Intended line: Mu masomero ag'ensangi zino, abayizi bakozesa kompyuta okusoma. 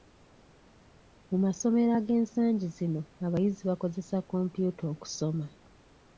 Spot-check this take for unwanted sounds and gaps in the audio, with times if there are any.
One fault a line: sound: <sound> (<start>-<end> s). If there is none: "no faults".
no faults